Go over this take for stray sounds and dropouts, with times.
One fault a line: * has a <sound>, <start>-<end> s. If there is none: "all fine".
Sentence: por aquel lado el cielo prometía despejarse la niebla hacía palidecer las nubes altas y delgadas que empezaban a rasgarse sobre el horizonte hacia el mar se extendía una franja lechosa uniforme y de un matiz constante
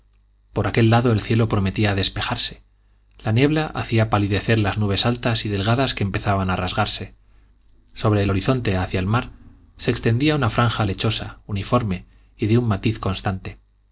all fine